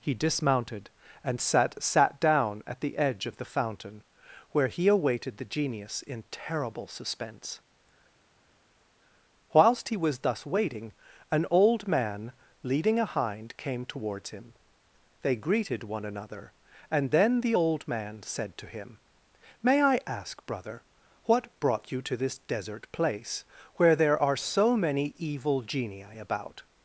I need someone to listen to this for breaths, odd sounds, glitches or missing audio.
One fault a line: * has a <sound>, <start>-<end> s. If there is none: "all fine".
all fine